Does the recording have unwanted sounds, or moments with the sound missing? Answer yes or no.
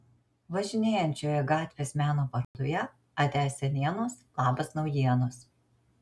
yes